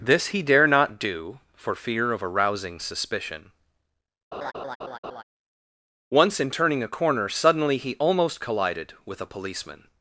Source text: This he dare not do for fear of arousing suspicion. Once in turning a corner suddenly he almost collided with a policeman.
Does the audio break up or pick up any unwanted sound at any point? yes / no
yes